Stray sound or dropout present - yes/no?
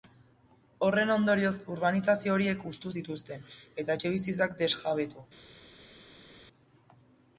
no